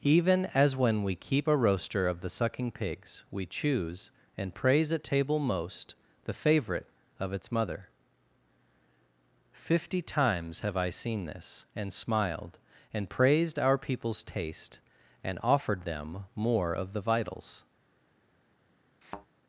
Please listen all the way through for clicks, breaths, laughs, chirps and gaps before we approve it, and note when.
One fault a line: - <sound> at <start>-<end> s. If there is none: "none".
- thud at 19.0-19.3 s